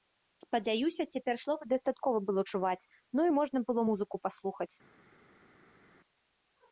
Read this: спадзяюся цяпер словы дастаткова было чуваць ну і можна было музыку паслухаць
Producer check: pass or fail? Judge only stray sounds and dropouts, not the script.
pass